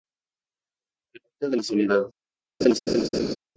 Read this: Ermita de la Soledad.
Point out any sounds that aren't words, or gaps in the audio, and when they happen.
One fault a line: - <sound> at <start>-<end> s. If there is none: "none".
- laugh at 2.6-3.4 s